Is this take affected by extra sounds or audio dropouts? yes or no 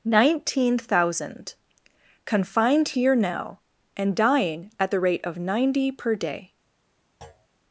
yes